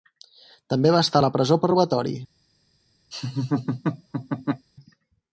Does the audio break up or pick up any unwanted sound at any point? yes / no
yes